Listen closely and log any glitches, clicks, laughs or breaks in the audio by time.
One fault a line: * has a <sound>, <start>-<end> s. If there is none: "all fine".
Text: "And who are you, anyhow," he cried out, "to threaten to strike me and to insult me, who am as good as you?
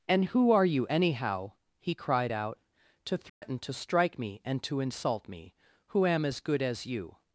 * has a dropout, 3.3-3.4 s